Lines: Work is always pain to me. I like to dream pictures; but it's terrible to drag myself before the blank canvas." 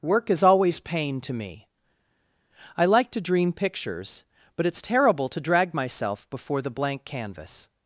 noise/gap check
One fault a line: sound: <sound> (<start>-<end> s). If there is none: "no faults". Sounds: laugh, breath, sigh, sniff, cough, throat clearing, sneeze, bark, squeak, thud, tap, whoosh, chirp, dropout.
no faults